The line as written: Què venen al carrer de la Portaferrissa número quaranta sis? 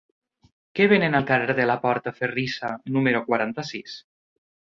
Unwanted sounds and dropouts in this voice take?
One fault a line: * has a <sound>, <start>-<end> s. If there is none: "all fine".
all fine